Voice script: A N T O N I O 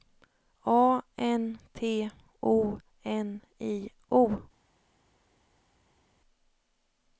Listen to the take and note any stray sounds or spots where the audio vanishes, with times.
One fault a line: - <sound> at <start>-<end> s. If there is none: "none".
none